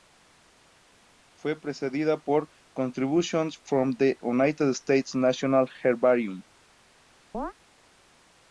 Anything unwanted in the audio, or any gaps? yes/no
yes